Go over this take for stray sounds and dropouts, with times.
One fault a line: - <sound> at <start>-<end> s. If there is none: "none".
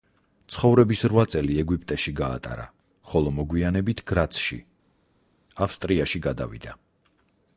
none